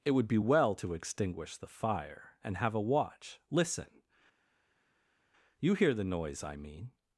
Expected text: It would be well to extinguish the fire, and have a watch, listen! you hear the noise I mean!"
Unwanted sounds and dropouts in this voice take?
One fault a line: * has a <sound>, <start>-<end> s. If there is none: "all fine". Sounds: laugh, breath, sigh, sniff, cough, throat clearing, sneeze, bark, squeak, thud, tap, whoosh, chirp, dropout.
all fine